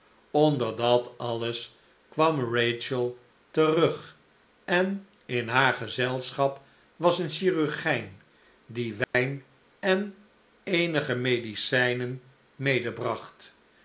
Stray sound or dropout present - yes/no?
yes